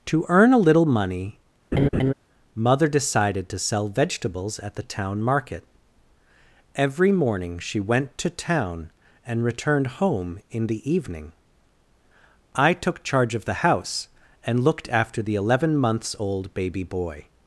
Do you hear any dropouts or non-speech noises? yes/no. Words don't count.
yes